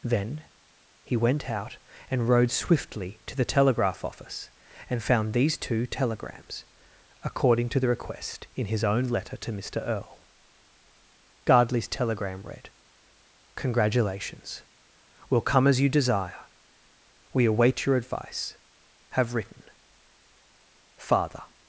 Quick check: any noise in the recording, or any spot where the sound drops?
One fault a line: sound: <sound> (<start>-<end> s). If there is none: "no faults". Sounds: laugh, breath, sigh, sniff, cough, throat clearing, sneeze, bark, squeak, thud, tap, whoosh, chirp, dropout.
no faults